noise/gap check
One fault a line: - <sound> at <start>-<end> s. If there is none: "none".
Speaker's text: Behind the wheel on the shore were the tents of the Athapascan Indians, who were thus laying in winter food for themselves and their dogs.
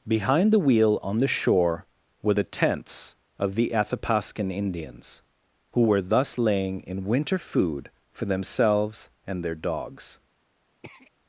- throat clearing at 10.8-11.1 s